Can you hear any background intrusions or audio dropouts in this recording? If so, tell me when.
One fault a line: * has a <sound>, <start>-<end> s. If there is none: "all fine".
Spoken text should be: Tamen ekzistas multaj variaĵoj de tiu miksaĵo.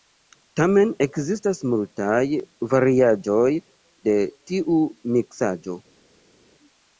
all fine